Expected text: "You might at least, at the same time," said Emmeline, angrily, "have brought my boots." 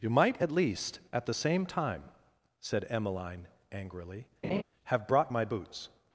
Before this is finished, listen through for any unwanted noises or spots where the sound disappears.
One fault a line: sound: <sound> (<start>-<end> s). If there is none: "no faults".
sound: laugh (4.4-4.6 s)